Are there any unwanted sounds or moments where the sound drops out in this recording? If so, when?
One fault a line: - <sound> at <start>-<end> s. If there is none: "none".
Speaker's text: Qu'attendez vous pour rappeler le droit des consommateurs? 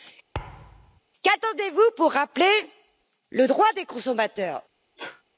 - thud at 0.3-1.0 s
- sneeze at 5.0-5.2 s